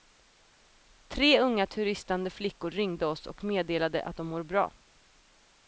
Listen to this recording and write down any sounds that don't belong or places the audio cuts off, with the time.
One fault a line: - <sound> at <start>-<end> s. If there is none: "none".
none